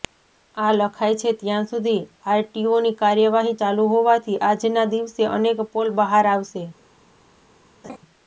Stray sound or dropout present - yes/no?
yes